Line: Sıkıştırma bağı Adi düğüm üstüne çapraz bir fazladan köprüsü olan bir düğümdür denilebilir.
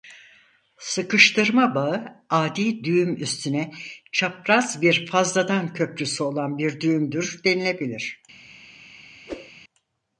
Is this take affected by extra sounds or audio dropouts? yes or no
yes